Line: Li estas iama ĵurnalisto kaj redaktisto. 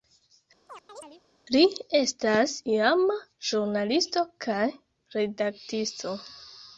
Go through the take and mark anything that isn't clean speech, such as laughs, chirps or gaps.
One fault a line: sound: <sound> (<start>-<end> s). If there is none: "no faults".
sound: chirp (0.7-1.2 s)